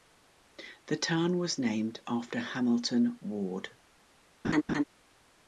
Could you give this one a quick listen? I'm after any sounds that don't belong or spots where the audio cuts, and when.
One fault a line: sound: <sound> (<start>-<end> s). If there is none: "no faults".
sound: laugh (4.4-4.8 s)